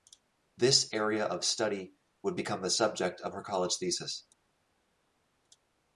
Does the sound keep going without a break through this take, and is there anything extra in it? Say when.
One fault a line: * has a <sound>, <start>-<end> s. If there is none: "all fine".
all fine